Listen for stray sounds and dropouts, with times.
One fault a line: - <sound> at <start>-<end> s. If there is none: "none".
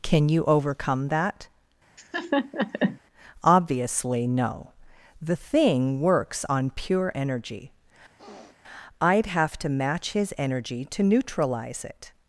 - laugh at 2.0-3.0 s
- sniff at 8.2-8.6 s